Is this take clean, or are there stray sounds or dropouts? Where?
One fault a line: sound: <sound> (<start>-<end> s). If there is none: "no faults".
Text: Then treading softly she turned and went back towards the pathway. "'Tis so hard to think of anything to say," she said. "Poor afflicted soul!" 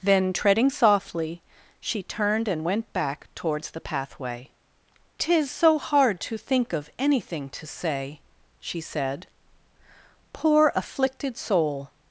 no faults